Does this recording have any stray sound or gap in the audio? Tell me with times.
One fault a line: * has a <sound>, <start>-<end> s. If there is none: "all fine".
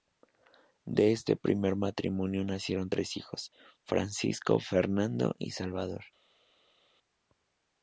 all fine